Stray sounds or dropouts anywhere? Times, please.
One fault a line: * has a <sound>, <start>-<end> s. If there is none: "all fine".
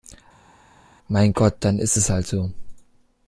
all fine